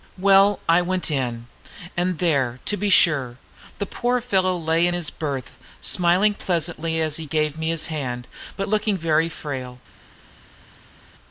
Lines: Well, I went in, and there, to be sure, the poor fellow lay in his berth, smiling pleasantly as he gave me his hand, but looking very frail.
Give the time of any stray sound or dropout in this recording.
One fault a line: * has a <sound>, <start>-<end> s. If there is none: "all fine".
all fine